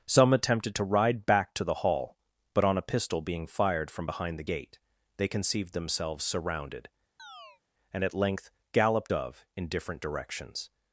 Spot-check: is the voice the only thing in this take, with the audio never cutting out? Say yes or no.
no